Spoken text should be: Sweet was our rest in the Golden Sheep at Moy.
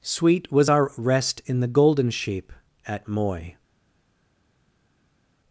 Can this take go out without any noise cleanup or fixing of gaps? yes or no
yes